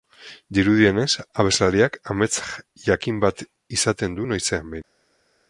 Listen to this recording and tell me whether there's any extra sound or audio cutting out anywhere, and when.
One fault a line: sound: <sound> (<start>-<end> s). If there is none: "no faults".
no faults